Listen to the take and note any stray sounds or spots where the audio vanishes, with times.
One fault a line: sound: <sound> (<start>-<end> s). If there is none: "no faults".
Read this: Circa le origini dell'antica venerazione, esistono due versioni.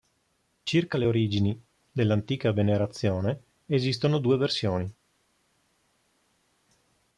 no faults